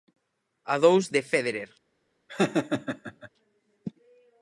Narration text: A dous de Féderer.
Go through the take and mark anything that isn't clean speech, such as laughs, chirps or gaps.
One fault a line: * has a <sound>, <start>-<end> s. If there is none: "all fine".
* has a laugh, 2.3-3.3 s